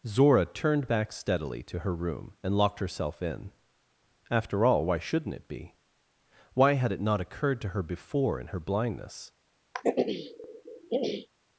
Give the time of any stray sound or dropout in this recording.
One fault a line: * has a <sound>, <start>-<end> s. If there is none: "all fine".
* has a throat clearing, 9.7-11.3 s